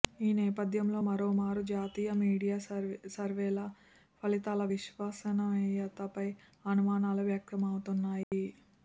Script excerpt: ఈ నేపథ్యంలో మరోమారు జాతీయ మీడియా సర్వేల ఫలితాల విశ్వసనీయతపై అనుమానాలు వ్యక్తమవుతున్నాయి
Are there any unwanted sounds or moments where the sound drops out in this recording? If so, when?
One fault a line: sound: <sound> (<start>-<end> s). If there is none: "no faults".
sound: dropout (8.2-8.3 s)